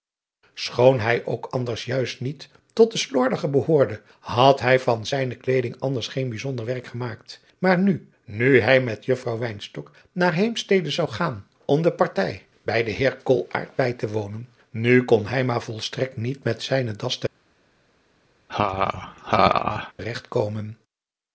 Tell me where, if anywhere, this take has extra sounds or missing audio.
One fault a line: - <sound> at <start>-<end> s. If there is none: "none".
- laugh at 18.5-19.9 s